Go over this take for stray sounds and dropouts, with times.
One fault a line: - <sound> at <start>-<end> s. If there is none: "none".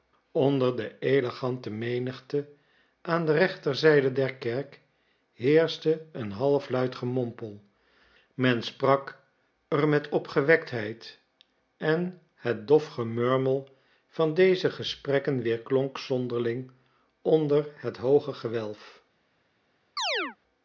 - chirp at 20.0-20.4 s